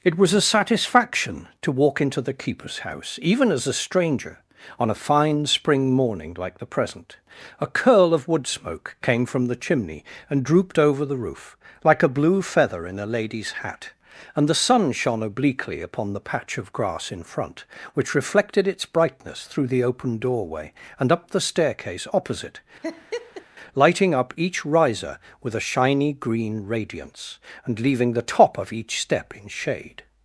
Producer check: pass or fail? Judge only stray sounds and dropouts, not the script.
fail